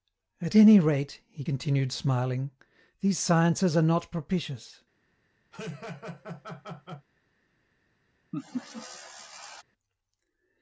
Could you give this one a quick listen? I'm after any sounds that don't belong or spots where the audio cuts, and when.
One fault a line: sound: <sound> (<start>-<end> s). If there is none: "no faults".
sound: laugh (5.5-7.1 s)
sound: laugh (8.3-9.6 s)